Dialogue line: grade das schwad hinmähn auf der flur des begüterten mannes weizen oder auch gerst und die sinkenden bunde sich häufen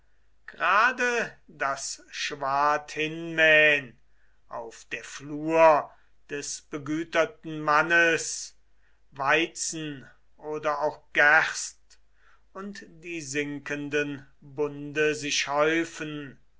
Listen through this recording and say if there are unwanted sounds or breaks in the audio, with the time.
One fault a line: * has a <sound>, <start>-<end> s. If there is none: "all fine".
all fine